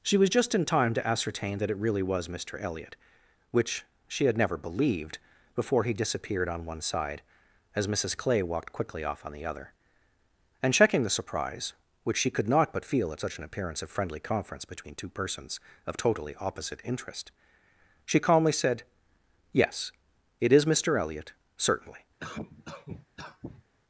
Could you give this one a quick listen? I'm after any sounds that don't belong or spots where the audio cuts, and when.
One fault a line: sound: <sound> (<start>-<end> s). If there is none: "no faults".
sound: cough (22.2-23.7 s)